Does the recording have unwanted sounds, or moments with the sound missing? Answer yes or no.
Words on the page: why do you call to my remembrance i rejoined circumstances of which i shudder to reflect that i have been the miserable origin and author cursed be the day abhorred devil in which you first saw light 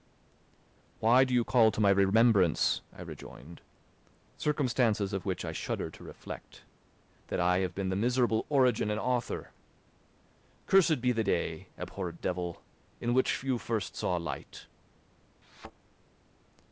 yes